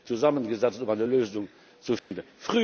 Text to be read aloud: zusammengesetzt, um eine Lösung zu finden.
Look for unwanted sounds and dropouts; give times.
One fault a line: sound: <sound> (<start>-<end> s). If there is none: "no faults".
sound: dropout (2.0-2.1 s)